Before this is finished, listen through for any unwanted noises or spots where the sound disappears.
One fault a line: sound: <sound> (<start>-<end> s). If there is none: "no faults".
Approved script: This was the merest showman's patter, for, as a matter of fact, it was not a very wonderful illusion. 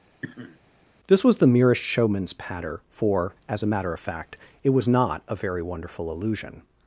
sound: sniff (0.2-0.6 s)